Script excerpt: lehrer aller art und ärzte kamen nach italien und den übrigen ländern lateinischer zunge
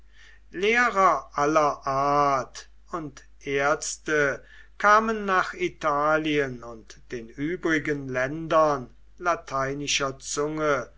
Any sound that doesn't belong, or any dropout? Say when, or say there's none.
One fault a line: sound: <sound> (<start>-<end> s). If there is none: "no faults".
no faults